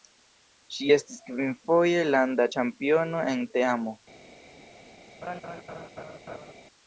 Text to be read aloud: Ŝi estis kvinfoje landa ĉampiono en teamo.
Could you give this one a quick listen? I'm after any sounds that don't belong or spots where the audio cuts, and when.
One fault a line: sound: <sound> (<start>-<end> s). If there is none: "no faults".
sound: laugh (5.2-6.5 s)